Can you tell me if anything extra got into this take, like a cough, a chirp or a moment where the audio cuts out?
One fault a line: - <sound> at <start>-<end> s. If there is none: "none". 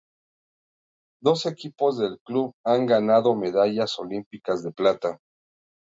none